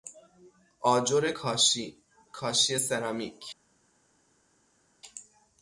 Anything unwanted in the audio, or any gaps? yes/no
no